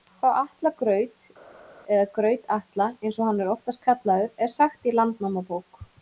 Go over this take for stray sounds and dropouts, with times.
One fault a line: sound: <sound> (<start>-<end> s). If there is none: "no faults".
no faults